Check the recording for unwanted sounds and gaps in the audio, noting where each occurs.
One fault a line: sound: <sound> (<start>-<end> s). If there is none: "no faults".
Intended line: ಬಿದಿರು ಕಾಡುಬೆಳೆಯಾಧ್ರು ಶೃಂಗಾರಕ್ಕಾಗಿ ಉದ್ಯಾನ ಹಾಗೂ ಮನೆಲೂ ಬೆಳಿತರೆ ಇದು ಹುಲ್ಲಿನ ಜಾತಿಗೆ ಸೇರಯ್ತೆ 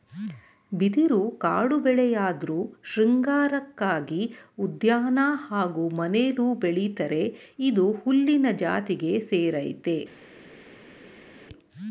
no faults